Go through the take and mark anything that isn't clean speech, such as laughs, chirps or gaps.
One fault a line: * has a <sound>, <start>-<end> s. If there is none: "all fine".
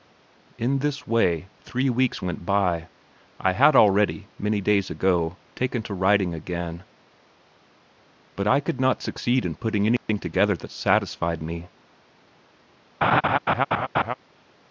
* has a dropout, 10.0-10.1 s
* has a laugh, 13.0-14.1 s